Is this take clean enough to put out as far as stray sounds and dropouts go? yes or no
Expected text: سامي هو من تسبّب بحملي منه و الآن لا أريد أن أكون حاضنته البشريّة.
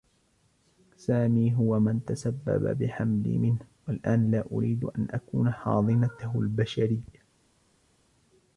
yes